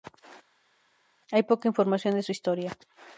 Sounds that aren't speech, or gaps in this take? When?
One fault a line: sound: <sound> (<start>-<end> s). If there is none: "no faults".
no faults